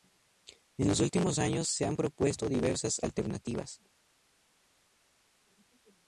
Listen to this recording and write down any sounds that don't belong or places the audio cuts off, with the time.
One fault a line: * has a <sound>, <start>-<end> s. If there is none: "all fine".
all fine